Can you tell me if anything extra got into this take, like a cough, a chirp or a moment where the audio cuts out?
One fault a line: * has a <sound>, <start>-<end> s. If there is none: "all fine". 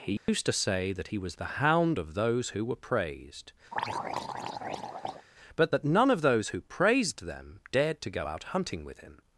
* has a dropout, 0.2-0.3 s
* has a throat clearing, 3.7-5.3 s